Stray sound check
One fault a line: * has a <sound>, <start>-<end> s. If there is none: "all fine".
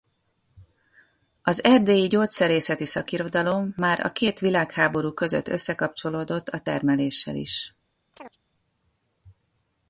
* has a chirp, 8.1-8.4 s